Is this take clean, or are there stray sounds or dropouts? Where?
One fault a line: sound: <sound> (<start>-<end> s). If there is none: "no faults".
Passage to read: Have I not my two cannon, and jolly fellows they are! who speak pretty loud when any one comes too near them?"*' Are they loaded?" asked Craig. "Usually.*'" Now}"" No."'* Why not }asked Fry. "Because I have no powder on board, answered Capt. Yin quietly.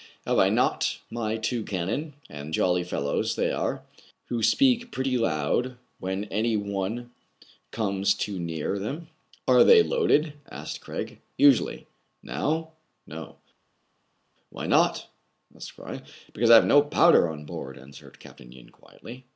no faults